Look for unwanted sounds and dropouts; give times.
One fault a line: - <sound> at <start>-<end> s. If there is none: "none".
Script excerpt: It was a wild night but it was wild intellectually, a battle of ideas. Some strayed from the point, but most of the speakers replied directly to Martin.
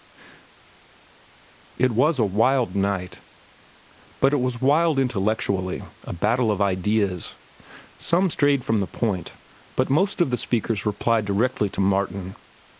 none